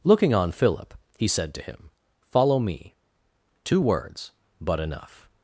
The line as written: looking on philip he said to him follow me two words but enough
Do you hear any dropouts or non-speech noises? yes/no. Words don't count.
no